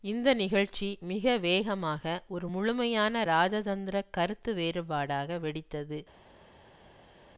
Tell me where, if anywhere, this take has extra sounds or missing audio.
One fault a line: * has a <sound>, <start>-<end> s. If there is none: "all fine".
all fine